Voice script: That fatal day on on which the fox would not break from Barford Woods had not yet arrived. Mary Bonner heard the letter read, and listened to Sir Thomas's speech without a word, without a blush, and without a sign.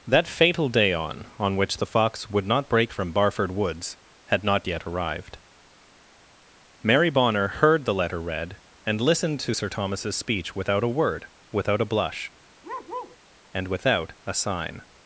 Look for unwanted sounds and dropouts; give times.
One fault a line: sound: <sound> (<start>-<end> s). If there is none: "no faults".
sound: bark (12.6-13.2 s)